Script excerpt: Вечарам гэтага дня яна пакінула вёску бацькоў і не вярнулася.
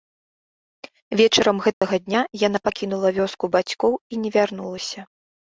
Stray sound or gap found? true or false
true